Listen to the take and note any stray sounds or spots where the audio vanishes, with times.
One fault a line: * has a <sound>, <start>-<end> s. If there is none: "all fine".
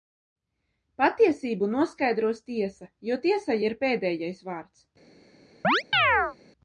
* has a chirp, 5.6-6.4 s